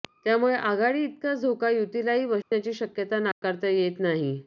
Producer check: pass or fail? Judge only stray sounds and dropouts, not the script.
fail